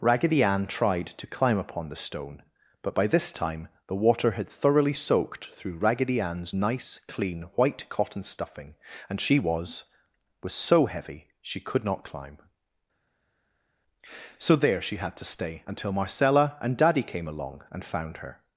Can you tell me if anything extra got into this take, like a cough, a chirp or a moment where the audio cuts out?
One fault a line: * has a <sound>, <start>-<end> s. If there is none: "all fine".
all fine